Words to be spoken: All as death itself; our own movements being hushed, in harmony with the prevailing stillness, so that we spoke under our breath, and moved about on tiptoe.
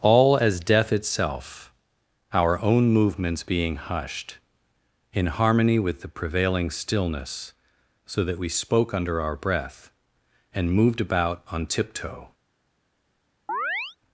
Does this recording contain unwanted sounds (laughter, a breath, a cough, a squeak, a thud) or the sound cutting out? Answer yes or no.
yes